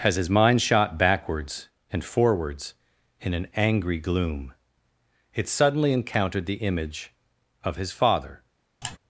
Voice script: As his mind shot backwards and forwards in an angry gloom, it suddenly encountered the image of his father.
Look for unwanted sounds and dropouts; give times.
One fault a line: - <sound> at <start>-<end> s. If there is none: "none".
- sigh at 8.8-9.0 s